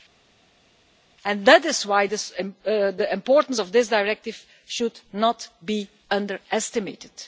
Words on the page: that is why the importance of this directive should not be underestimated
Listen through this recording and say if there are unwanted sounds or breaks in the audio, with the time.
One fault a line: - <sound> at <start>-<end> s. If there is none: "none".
none